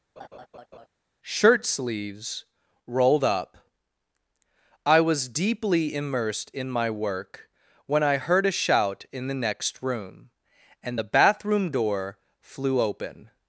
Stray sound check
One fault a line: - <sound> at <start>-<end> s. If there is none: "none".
- laugh at 0.2-0.9 s